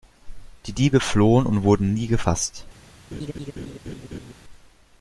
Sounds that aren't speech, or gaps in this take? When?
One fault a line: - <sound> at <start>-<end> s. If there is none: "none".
- laugh at 3.1-4.3 s